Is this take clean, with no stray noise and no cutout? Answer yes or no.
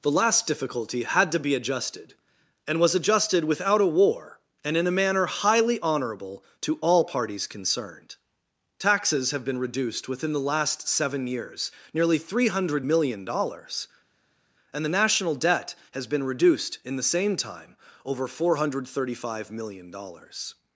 yes